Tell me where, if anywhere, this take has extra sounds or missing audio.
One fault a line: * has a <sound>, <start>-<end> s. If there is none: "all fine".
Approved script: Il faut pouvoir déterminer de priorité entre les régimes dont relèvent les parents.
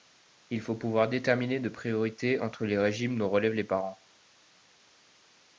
all fine